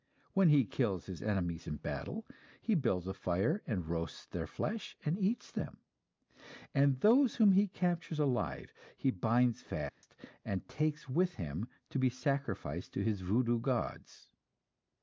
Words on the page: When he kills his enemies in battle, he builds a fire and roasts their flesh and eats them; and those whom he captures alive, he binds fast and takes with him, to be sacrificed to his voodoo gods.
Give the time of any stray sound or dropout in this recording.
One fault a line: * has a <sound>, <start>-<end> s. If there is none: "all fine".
* has a dropout, 9.9-10.0 s